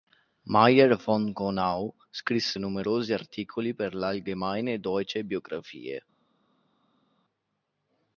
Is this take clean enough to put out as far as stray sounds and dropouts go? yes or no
yes